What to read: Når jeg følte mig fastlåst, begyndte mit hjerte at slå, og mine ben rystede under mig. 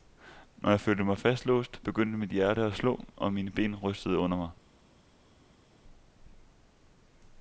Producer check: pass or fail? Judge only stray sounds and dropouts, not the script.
pass